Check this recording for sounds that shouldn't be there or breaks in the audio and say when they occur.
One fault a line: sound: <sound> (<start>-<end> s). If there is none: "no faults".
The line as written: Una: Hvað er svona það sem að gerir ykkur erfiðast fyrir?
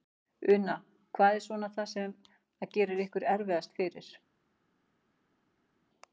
no faults